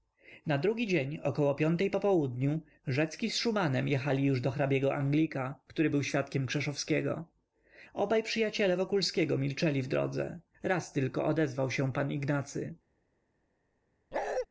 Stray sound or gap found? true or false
true